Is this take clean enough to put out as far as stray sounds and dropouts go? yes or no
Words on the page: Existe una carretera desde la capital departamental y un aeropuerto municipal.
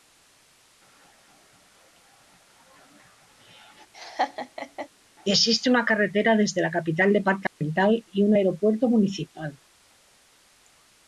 no